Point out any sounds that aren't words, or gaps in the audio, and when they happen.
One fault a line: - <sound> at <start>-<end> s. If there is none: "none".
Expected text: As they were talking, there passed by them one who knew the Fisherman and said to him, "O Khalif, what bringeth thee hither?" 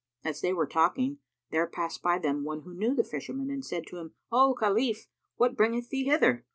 none